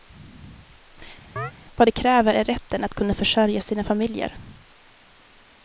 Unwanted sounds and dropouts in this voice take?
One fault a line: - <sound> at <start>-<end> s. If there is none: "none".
- chirp at 1.4-1.5 s